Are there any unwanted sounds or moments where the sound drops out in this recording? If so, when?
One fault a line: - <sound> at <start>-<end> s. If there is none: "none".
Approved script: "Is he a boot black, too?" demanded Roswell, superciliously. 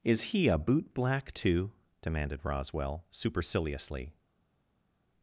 none